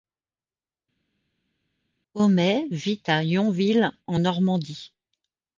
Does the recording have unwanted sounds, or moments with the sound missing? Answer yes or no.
no